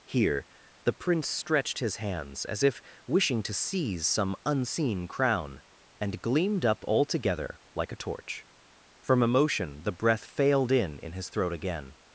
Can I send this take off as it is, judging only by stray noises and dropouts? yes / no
yes